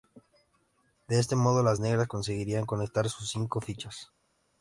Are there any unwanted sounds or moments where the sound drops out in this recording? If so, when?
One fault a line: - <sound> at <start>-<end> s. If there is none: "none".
none